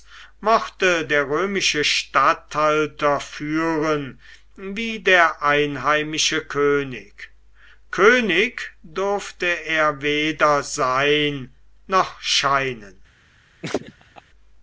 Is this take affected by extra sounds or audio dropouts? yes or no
yes